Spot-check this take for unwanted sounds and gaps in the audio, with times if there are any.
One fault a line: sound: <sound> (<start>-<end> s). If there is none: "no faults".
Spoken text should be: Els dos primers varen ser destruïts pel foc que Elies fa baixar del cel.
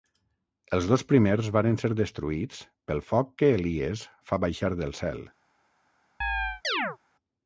sound: chirp (6.2-7.0 s)